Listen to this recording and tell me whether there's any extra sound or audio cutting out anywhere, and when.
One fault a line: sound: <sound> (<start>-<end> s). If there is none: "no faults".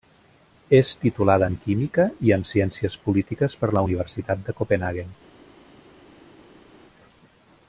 no faults